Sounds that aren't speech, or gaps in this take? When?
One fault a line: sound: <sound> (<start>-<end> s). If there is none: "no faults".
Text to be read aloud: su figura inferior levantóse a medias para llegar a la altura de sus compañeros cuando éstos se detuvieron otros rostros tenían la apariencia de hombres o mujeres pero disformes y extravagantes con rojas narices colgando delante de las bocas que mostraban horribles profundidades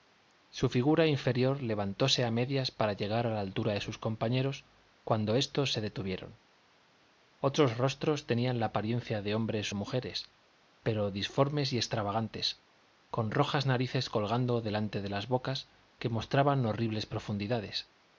no faults